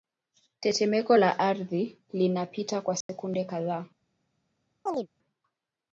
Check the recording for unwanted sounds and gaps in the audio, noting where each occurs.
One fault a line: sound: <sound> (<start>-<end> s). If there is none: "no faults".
sound: dropout (3.0-3.1 s)
sound: chirp (4.9-5.1 s)